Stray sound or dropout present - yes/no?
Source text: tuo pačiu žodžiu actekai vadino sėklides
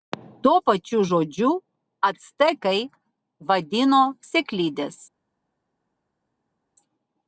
no